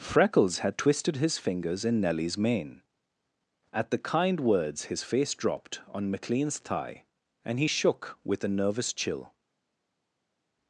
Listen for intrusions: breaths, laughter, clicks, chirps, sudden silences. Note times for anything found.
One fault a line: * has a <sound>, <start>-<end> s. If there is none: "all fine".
all fine